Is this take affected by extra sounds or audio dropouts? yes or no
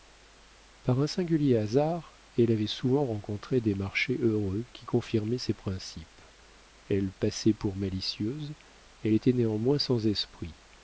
no